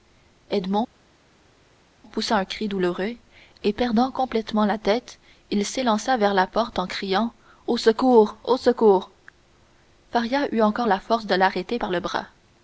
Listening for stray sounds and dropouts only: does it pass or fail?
pass